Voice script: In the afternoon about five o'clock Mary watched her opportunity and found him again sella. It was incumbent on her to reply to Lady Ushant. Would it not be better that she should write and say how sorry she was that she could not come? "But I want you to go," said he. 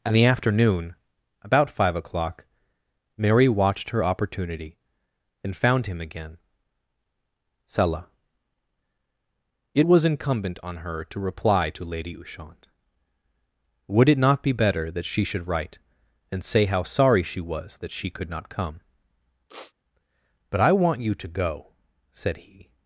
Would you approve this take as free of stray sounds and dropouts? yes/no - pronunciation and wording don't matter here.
no